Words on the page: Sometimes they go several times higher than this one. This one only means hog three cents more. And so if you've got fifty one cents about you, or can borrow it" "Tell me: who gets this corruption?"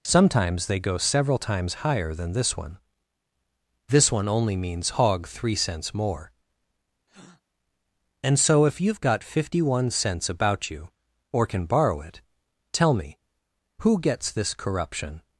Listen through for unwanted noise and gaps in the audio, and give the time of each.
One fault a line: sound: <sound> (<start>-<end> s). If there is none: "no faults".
sound: breath (7.1-7.4 s)